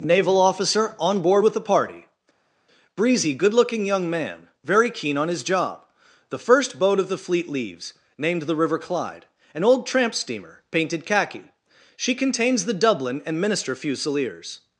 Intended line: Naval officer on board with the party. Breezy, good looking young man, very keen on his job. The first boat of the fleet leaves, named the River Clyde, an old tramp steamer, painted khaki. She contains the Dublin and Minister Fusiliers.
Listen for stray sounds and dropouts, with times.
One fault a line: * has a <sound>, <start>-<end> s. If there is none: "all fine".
all fine